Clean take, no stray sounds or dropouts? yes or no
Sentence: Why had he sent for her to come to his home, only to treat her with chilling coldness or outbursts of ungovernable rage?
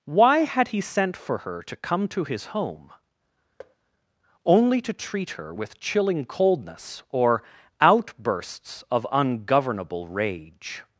no